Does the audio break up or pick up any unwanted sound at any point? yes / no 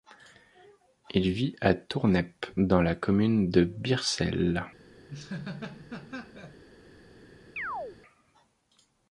yes